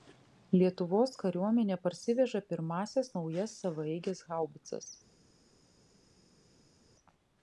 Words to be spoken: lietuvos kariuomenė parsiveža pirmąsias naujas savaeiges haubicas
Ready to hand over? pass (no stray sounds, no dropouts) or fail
pass